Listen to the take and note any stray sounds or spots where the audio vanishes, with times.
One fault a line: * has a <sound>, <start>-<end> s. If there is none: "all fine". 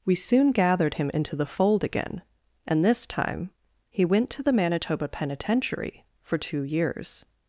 all fine